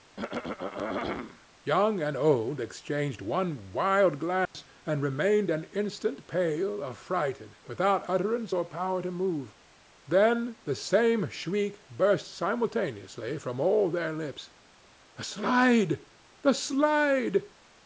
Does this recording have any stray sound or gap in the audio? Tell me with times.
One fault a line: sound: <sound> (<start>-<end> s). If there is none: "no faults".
sound: throat clearing (0.2-1.5 s)
sound: dropout (4.5-4.5 s)